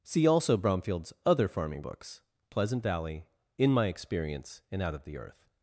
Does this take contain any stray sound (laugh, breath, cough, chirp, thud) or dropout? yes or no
no